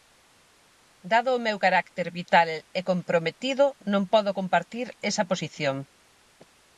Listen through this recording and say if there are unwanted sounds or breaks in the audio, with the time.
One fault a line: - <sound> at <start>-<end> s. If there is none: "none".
none